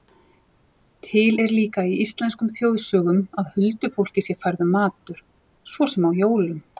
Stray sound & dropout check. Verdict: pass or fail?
pass